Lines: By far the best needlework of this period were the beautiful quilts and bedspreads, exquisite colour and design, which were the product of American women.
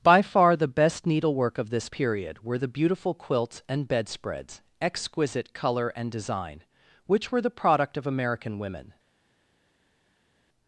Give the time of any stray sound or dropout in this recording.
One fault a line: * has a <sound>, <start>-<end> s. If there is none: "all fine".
all fine